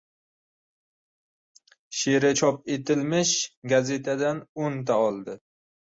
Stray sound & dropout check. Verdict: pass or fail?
pass